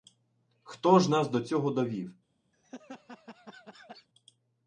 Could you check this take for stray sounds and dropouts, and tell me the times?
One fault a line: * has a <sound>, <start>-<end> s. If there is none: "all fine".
* has a laugh, 2.5-4.1 s